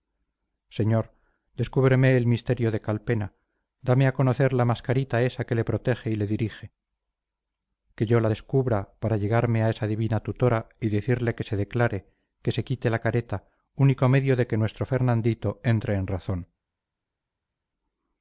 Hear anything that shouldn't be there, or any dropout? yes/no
no